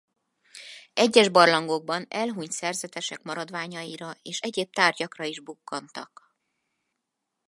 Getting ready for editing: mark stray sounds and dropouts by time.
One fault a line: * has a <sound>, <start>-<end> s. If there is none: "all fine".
all fine